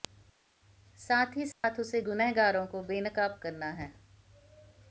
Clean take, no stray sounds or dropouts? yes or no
no